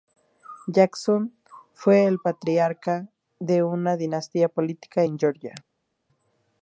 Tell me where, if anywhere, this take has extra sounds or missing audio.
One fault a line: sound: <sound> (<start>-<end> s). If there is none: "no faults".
no faults